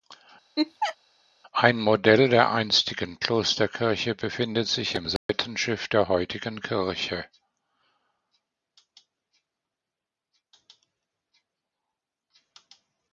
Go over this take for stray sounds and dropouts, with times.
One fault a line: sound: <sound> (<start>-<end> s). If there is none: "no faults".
sound: laugh (0.6-1.0 s)
sound: dropout (5.2-5.3 s)